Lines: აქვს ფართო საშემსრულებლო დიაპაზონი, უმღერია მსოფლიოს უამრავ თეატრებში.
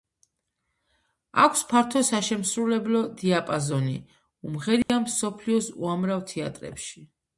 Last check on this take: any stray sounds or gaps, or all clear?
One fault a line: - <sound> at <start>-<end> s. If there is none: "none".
- dropout at 4.8-4.9 s